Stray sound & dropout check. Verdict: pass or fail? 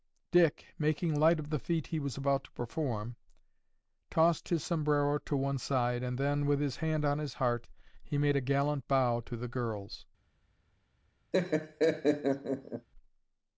fail